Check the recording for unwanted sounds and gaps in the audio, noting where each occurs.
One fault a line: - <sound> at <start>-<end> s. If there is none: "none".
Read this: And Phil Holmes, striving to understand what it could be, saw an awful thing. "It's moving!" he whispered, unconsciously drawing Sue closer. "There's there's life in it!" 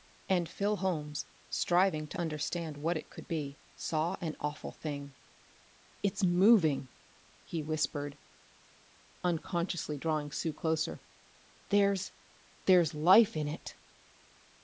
none